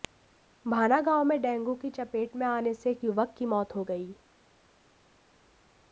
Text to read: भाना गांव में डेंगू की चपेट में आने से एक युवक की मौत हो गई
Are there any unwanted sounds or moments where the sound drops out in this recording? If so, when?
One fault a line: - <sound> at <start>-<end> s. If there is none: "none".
none